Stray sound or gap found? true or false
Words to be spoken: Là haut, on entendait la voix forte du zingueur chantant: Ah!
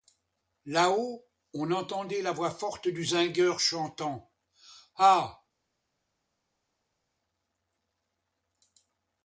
false